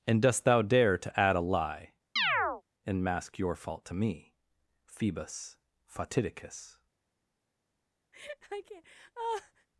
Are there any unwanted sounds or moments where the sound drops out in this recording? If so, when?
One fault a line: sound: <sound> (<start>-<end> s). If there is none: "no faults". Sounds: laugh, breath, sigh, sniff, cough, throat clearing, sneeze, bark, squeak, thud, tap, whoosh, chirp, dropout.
sound: chirp (2.2-2.6 s)
sound: laugh (8.1-9.7 s)